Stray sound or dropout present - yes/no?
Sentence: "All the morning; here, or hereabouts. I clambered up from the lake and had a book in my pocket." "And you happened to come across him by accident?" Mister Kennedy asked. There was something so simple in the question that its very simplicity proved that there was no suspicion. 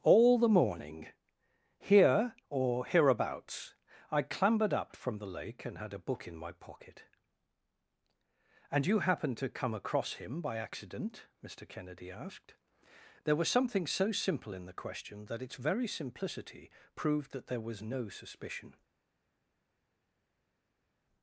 no